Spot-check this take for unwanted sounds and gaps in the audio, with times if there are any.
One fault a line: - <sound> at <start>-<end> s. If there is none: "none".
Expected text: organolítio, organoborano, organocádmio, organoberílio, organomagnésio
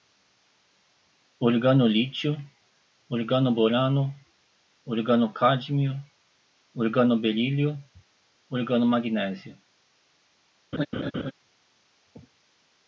- laugh at 10.7-11.3 s